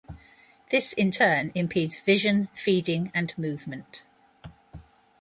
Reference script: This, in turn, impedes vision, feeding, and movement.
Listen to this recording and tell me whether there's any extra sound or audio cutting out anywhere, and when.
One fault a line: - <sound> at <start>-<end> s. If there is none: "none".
none